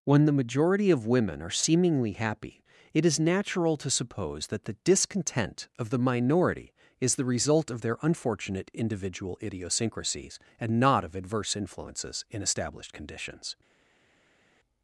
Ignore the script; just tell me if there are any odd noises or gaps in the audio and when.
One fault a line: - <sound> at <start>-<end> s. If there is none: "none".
none